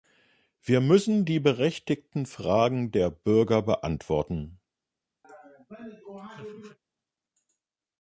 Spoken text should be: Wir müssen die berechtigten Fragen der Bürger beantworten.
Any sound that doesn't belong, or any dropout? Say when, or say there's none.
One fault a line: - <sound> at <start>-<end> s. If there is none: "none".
- laugh at 5.2-6.8 s